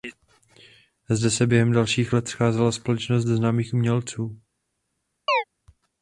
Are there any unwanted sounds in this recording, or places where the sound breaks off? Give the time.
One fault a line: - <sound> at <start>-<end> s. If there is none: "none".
- chirp at 5.3-5.4 s